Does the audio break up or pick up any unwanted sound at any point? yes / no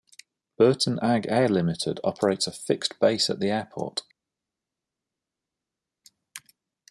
no